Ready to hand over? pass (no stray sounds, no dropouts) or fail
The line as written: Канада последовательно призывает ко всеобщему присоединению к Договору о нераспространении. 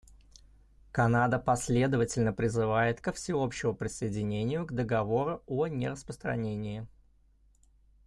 pass